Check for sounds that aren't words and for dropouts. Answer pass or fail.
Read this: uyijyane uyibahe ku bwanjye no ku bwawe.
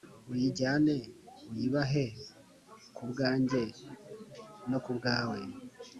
pass